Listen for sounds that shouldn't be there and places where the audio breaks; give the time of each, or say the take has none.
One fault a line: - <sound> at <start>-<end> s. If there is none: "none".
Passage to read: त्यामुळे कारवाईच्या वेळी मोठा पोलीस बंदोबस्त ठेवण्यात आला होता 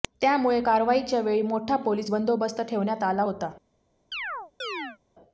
- chirp at 4.1-5.0 s